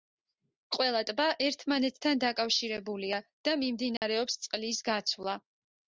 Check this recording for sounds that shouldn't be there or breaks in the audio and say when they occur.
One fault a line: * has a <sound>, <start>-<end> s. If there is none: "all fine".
* has a dropout, 4.0-4.0 s